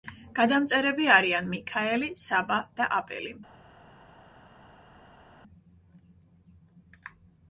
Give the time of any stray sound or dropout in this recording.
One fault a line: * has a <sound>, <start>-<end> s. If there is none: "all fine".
all fine